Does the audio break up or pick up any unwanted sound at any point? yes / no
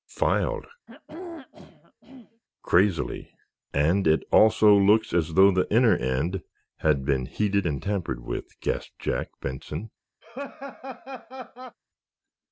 yes